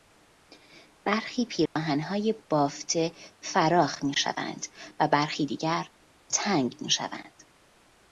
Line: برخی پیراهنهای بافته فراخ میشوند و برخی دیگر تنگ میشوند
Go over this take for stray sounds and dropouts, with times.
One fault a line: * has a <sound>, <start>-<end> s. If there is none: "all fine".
* has a dropout, 1.7-1.8 s